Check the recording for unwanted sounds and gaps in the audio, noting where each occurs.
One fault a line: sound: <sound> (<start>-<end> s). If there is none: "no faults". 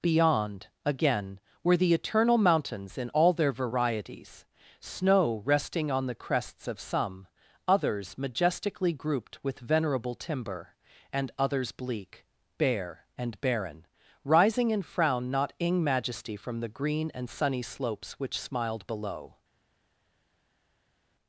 no faults